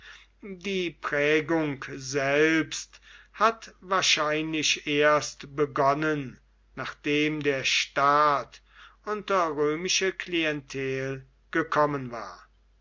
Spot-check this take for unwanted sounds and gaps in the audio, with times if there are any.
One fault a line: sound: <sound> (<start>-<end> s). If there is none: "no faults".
no faults